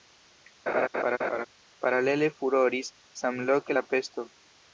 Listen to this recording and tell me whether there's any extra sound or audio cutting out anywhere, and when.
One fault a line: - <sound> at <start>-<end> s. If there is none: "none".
- laugh at 0.7-1.5 s